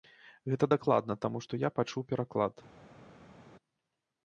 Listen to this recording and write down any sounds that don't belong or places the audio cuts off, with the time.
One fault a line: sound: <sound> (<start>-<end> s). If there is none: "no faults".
no faults